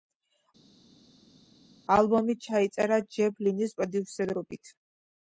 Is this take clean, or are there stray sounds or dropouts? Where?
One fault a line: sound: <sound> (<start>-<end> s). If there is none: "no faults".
no faults